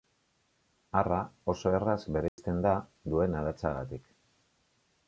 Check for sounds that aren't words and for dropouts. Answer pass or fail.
fail